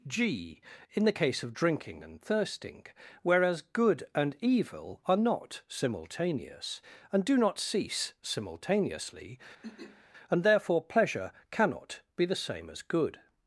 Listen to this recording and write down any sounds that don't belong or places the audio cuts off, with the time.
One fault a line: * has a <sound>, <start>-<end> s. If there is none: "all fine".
* has a throat clearing, 9.6-10.0 s